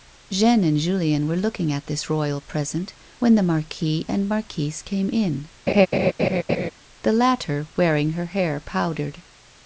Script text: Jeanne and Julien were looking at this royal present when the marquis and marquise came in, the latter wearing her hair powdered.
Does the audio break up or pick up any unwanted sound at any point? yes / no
yes